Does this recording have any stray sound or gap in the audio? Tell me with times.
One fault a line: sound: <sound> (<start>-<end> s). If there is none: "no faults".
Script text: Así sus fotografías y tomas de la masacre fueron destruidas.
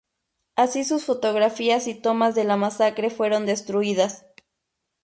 no faults